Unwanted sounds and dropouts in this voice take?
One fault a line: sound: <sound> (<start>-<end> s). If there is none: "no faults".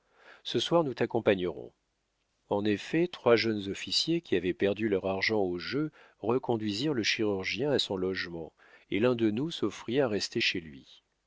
no faults